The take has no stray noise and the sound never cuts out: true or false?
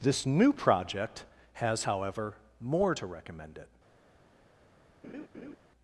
false